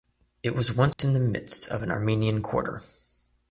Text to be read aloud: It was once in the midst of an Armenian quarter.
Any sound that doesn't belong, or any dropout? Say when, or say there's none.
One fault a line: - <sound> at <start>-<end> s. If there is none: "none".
- dropout at 0.9-1.0 s